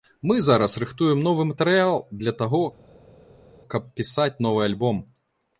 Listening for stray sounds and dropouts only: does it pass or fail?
pass